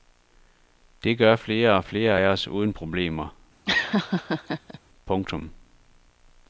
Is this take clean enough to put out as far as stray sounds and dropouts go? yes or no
no